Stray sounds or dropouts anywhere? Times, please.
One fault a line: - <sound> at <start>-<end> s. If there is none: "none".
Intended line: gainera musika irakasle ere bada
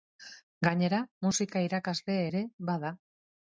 none